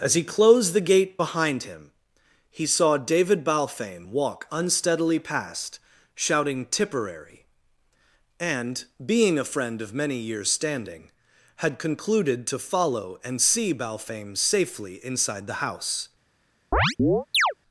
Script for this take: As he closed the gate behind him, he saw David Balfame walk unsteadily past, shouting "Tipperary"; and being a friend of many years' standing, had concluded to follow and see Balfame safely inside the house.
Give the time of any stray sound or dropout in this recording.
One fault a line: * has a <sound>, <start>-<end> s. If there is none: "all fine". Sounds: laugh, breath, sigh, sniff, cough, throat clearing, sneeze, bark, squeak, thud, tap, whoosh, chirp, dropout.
* has a chirp, 16.7-17.5 s